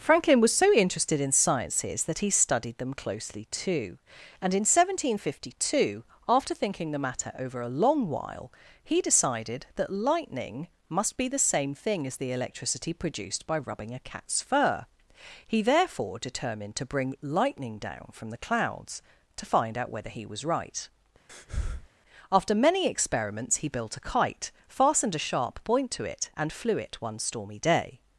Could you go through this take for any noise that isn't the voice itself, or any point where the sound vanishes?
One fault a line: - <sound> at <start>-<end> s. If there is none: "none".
- breath at 21.3-21.9 s